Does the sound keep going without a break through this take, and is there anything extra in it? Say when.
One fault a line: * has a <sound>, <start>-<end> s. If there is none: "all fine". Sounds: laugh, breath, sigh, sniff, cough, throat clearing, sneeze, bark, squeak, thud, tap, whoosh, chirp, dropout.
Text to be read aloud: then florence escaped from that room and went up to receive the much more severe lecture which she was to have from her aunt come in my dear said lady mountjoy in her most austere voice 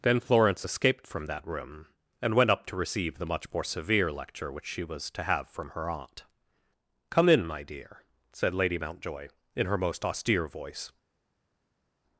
all fine